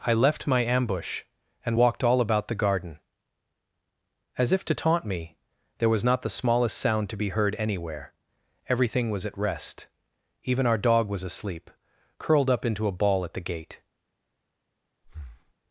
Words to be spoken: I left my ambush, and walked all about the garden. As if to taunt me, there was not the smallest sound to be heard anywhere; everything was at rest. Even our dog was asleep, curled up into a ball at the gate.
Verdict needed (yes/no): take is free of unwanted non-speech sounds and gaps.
no